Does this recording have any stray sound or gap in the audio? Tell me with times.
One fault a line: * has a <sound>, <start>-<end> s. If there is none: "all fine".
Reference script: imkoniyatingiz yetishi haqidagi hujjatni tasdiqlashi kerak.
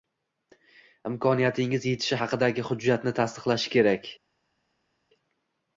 all fine